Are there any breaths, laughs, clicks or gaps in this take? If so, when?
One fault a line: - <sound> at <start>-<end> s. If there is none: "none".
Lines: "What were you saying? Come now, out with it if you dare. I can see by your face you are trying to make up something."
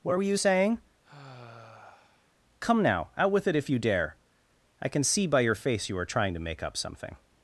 - sigh at 1.0-2.3 s